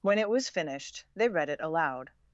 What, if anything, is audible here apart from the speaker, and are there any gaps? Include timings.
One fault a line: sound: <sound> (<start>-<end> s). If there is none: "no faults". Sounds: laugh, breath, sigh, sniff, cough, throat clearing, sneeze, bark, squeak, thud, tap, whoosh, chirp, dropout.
no faults